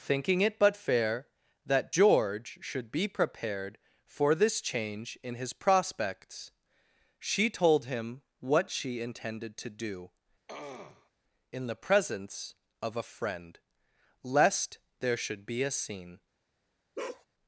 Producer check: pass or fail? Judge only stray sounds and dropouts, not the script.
fail